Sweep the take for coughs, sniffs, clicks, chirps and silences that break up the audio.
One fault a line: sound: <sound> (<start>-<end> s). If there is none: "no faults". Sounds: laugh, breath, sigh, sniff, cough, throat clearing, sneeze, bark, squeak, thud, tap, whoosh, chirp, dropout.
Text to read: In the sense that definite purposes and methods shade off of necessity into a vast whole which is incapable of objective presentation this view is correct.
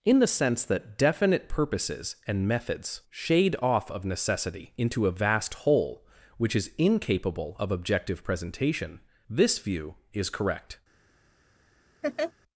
sound: laugh (12.0-12.3 s)